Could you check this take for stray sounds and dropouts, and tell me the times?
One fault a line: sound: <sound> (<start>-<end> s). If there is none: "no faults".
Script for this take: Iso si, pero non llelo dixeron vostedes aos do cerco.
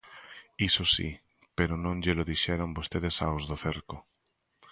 no faults